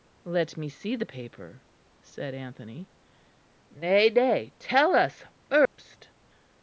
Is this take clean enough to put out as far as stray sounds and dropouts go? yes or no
no